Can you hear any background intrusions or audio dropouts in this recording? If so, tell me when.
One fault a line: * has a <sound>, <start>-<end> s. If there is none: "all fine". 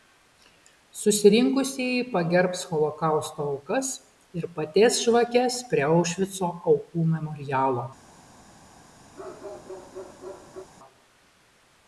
* has a bark, 9.1-10.7 s